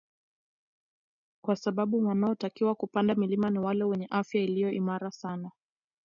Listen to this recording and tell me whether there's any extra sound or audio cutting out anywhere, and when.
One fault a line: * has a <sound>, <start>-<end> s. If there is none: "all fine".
all fine